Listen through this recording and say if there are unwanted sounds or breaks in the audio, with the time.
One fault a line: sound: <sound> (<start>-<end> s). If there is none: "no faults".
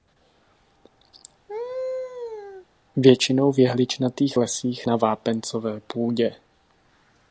sound: laugh (1.5-2.7 s)